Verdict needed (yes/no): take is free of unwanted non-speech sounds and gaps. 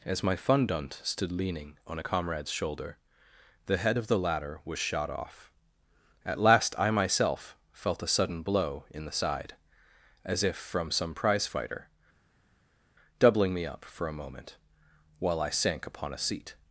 yes